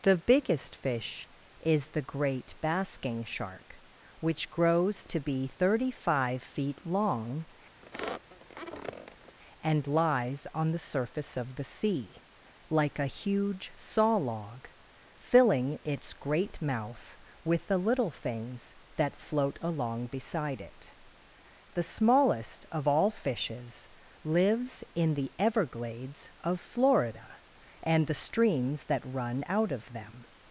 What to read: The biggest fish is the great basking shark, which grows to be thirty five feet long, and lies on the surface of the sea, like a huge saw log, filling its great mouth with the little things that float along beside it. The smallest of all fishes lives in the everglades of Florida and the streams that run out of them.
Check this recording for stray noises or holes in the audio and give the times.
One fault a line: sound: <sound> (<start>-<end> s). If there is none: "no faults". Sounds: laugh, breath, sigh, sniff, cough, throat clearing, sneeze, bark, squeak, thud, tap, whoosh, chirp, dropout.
sound: squeak (7.8-9.4 s)